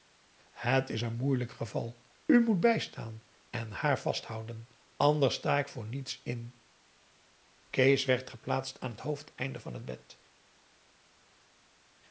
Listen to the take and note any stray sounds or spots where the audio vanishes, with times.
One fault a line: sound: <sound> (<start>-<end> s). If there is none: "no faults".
no faults